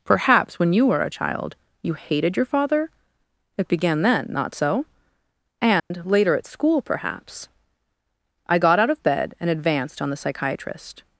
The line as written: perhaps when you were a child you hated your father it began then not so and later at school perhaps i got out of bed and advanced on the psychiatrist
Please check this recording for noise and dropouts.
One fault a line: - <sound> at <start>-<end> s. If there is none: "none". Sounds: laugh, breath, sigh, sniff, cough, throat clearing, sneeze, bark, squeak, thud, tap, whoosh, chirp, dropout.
- dropout at 5.8-5.9 s